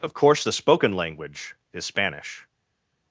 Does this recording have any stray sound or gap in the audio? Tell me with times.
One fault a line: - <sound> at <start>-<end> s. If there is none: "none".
none